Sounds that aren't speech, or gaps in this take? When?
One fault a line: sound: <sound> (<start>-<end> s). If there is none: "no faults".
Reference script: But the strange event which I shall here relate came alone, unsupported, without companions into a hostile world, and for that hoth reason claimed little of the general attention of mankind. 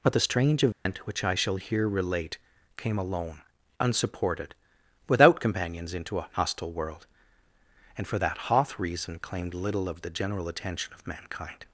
sound: dropout (0.7-0.9 s)